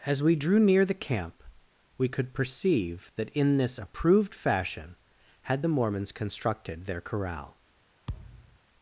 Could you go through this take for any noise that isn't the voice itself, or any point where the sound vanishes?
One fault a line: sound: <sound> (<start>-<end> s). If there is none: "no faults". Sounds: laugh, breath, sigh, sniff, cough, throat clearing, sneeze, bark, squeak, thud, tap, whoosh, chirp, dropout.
sound: thud (8.1-8.6 s)